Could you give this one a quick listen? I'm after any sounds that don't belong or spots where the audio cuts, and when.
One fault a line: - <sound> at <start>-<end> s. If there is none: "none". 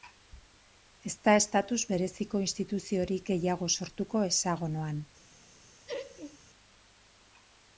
- laugh at 5.9-6.4 s